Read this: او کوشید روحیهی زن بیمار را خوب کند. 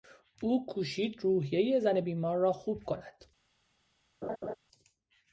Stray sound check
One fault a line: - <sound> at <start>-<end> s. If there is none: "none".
- laugh at 4.2-4.5 s